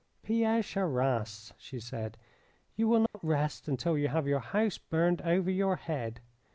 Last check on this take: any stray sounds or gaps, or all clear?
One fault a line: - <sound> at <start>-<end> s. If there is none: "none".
- dropout at 3.1-3.1 s